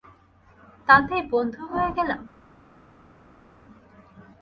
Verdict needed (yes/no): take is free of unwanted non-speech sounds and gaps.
yes